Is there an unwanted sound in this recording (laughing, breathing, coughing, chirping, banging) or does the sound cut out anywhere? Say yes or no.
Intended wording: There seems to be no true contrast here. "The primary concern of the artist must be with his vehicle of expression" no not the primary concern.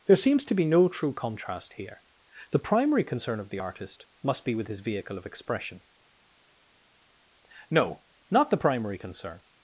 no